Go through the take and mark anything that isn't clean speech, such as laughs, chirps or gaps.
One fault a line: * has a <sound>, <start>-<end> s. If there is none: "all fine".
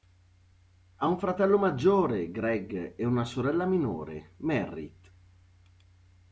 all fine